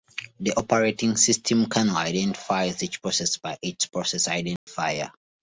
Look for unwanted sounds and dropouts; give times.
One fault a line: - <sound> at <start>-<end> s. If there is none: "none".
- dropout at 4.6-4.7 s